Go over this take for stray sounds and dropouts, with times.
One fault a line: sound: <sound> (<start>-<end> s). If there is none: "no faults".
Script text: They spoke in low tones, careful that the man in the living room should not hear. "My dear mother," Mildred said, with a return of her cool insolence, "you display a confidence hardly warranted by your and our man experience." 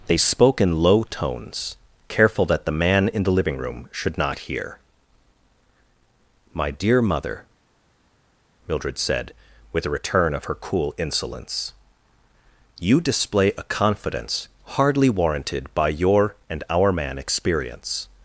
no faults